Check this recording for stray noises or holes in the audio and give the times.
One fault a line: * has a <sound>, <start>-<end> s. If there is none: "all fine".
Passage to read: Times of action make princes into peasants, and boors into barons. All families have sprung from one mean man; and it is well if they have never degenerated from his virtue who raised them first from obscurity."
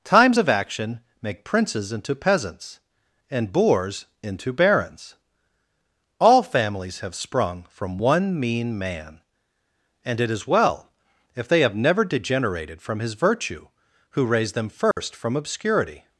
* has a dropout, 14.9-15.0 s